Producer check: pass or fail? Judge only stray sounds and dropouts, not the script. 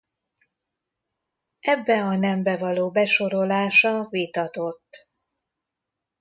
pass